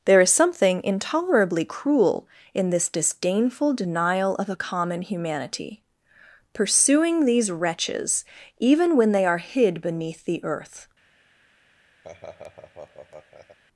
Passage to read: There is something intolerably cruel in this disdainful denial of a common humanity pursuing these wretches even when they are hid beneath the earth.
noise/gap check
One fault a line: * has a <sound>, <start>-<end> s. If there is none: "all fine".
* has a laugh, 12.0-13.6 s